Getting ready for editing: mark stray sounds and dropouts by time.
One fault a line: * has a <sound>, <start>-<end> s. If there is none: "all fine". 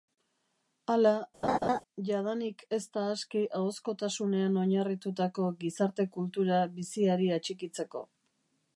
* has a laugh, 1.4-1.8 s